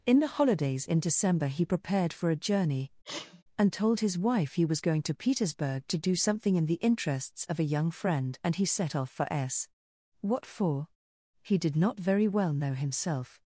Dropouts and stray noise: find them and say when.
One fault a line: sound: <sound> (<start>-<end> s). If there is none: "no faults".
sound: sneeze (3.0-3.4 s)